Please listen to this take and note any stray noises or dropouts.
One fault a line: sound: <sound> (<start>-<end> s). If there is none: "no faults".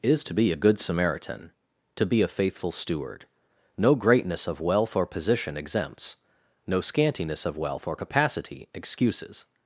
no faults